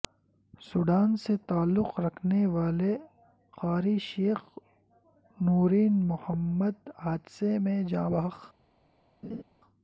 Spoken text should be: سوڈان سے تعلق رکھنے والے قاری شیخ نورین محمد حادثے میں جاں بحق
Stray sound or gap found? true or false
true